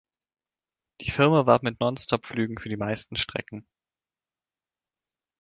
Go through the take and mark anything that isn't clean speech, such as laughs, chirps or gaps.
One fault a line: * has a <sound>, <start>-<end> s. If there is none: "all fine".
all fine